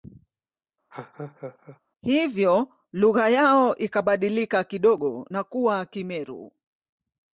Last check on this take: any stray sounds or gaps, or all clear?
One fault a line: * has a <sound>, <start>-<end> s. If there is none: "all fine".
* has a laugh, 0.9-1.8 s